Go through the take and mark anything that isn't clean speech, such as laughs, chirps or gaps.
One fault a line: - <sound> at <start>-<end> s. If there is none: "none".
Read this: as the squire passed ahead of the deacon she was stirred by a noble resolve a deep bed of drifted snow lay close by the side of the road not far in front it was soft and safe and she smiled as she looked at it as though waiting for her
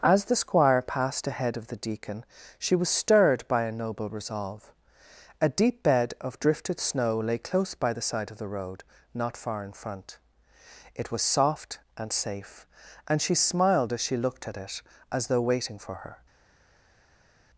none